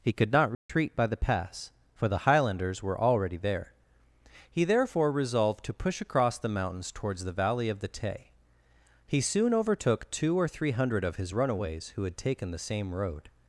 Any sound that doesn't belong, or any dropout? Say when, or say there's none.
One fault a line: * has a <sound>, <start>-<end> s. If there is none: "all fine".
* has a dropout, 0.5-0.7 s